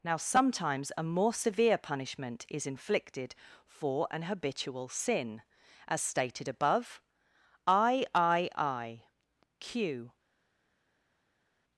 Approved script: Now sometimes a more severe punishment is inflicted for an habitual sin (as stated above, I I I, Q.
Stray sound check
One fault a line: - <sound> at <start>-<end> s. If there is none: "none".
none